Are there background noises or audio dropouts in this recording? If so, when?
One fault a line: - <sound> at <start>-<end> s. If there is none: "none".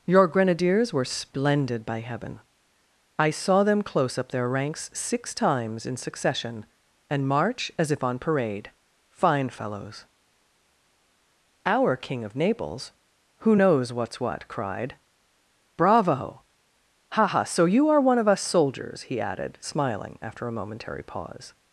none